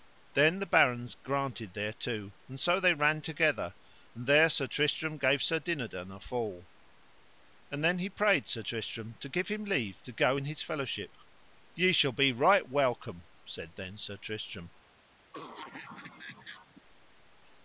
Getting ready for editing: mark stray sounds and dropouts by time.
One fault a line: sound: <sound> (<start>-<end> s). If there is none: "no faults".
sound: cough (15.3-16.8 s)